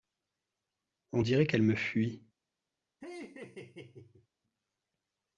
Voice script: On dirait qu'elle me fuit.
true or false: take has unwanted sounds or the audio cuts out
true